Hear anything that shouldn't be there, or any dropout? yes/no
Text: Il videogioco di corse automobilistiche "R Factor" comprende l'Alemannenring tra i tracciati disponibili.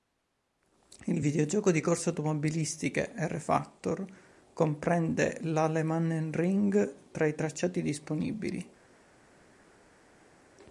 no